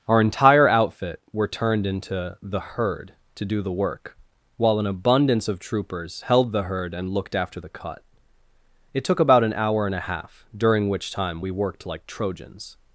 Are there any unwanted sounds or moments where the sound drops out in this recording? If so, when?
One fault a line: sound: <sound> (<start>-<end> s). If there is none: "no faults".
no faults